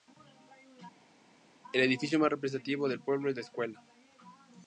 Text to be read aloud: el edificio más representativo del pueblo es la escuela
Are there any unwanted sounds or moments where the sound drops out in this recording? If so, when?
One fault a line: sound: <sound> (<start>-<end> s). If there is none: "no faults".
no faults